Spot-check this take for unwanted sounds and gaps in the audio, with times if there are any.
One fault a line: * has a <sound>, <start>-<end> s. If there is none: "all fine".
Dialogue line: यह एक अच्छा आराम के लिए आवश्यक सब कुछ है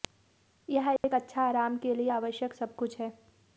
* has a dropout, 1.0-1.0 s